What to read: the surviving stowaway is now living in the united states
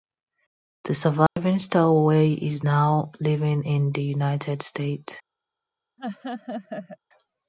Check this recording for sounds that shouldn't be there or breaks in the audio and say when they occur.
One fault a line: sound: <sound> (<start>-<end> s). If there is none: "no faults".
sound: dropout (1.3-1.4 s)
sound: laugh (6.0-7.0 s)